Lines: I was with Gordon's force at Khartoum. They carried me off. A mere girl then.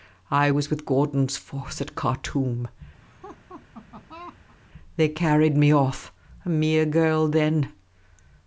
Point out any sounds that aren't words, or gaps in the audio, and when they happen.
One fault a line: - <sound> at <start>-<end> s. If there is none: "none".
- laugh at 3.0-4.6 s